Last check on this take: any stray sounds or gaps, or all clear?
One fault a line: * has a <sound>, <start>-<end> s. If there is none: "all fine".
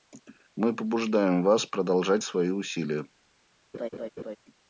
* has a laugh, 3.7-4.4 s